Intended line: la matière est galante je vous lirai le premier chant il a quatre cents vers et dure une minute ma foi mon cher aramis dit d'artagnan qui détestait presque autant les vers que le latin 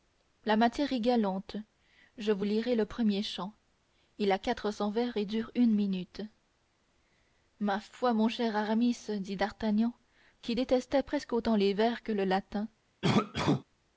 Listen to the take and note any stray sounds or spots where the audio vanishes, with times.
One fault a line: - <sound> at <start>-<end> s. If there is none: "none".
- cough at 13.0-13.6 s